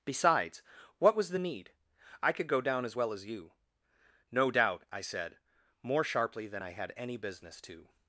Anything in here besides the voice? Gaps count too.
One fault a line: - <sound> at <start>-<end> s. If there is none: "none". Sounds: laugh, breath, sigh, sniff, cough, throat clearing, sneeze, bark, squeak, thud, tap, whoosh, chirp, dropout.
none